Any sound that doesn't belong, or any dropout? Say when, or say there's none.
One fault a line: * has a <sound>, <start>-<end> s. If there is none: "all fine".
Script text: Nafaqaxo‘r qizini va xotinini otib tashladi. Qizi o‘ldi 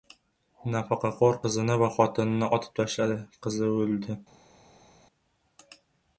all fine